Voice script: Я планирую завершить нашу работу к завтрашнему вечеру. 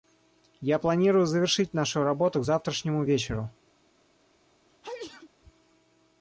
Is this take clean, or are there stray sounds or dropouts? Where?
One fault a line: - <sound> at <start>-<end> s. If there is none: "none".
- sneeze at 4.7-5.3 s